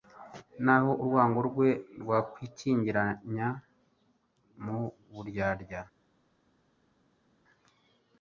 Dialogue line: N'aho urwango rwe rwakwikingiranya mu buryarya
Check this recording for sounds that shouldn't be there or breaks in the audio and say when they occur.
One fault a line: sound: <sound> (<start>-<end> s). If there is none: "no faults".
no faults